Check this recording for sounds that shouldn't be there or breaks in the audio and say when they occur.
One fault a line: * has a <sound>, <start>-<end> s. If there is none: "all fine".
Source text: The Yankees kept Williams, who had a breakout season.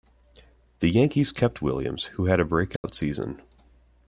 * has a dropout, 2.8-2.8 s